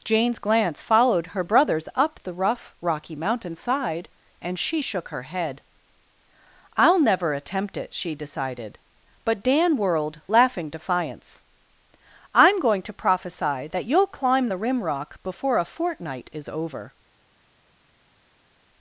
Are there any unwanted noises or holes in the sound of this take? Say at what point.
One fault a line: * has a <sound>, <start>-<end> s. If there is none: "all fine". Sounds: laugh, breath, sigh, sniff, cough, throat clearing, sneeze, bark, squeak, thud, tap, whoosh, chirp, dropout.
all fine